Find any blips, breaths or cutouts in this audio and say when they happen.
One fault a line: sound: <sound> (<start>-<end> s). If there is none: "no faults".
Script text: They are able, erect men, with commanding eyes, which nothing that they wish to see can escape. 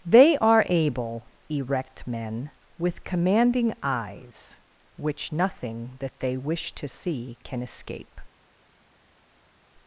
no faults